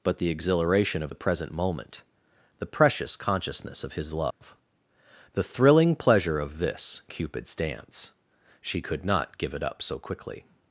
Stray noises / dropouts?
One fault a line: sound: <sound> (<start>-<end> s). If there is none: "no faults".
sound: dropout (4.3-4.4 s)